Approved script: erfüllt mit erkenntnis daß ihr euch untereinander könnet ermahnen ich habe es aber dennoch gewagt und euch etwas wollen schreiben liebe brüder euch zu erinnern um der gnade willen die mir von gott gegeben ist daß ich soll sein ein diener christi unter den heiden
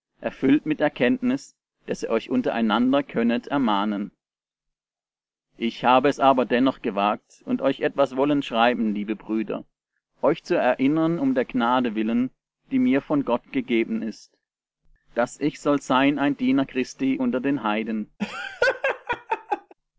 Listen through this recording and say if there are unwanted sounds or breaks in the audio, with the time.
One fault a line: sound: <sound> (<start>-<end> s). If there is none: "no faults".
sound: laugh (18.2-19.7 s)